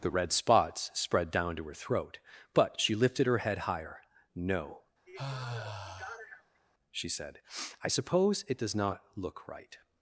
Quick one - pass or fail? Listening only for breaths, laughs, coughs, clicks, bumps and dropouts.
fail